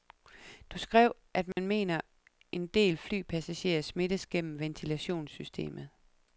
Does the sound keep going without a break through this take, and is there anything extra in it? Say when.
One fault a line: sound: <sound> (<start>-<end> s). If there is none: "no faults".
sound: dropout (1.5-1.6 s)